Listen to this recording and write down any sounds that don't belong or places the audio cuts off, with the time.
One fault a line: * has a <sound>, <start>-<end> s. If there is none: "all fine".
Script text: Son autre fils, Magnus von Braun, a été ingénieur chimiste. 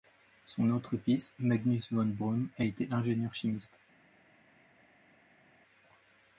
all fine